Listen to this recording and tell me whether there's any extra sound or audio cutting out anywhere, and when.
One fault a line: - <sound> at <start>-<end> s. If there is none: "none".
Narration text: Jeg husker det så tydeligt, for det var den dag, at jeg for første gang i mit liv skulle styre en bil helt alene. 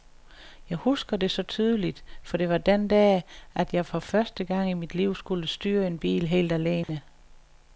- dropout at 6.8-6.9 s